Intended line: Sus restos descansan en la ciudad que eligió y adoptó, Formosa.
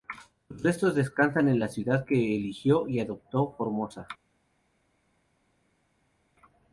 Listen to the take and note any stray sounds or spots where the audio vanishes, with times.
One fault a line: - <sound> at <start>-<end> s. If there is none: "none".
none